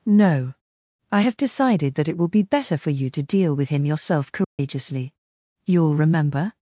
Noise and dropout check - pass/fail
fail